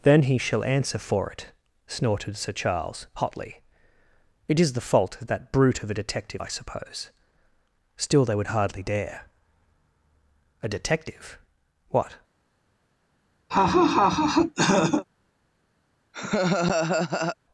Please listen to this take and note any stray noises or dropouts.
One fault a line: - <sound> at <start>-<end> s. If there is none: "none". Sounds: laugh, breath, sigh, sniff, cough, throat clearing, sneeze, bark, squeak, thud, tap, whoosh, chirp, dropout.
- laugh at 13.5-15.0 s
- laugh at 16.1-17.4 s